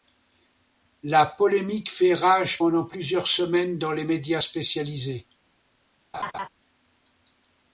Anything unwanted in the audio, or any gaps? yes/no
yes